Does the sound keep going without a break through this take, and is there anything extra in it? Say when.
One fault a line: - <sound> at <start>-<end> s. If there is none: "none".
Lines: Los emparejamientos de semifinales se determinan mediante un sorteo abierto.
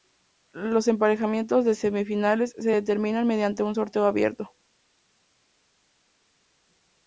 none